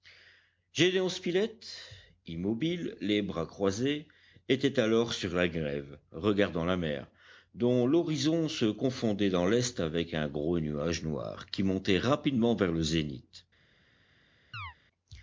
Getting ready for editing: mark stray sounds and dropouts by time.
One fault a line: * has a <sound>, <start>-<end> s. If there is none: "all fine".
* has a chirp, 14.5-14.7 s